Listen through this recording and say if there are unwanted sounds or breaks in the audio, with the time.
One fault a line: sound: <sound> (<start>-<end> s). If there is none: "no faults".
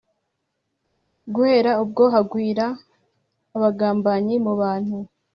no faults